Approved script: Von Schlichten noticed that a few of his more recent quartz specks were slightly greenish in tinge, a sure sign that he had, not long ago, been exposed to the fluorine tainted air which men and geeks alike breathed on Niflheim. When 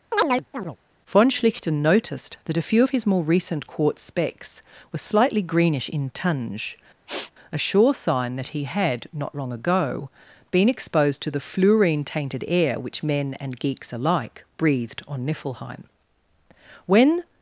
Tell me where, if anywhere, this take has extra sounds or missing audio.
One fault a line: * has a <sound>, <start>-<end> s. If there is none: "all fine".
* has a chirp, 0.1-0.8 s
* has a sneeze, 7.1-7.3 s